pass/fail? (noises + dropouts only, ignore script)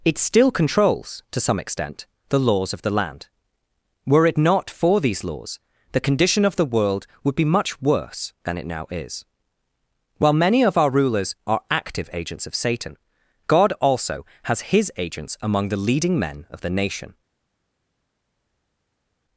pass